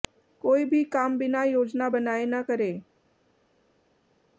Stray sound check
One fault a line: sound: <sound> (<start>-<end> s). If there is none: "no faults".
no faults